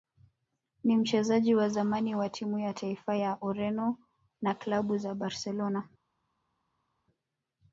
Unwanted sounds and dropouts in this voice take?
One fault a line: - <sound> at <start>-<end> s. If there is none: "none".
none